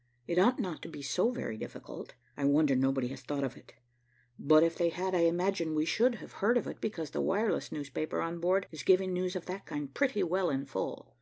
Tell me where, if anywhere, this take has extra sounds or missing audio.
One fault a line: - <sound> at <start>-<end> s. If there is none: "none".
none